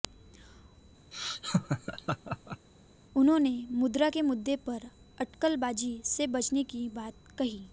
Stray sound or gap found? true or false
true